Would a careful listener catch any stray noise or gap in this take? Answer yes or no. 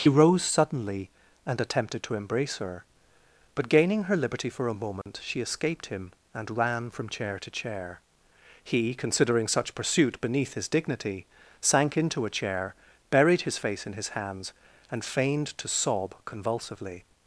yes